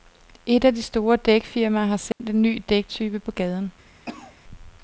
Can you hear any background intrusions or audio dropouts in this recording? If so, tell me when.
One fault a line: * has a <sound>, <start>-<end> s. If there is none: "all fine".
* has a dropout, 2.1-2.2 s
* has a cough, 4.1-4.4 s